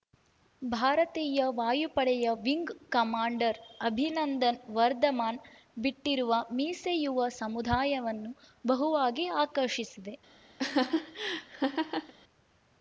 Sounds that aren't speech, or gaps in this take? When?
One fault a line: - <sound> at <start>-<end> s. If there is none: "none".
- laugh at 10.6-12.1 s